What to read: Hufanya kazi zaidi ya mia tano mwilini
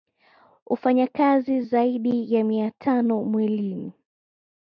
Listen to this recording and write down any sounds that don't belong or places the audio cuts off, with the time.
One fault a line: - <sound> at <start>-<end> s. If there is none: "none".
none